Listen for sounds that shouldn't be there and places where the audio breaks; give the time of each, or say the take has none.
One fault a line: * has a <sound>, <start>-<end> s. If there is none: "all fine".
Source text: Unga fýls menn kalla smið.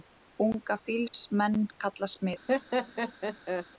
* has a dropout, 1.1-1.1 s
* has a laugh, 2.5-3.7 s